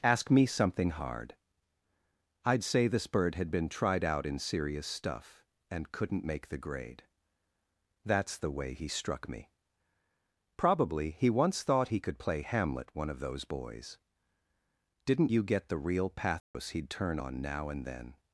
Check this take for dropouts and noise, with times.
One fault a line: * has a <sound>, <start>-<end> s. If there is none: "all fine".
* has a dropout, 16.4-16.5 s